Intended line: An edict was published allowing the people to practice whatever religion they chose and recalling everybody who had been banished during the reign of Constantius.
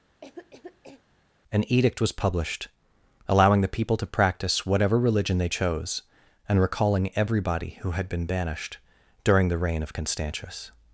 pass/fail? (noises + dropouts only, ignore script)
fail